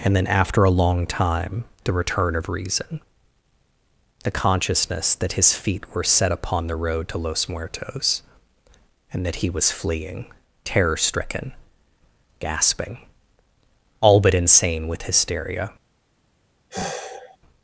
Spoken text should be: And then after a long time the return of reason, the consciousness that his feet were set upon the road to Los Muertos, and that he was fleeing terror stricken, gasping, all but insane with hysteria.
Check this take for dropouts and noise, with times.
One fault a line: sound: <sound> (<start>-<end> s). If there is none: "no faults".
sound: sigh (16.7-17.4 s)